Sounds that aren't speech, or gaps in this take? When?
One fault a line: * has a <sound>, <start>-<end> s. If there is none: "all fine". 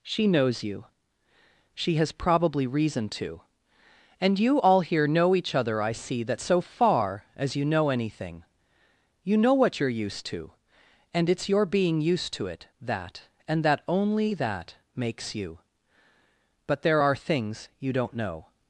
all fine